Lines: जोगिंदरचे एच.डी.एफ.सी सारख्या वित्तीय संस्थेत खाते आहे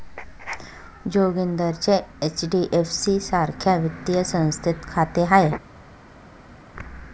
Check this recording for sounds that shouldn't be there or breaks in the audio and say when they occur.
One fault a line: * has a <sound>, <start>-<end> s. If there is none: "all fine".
all fine